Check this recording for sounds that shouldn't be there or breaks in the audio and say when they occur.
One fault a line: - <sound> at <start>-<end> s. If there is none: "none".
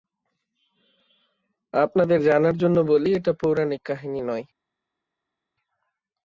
none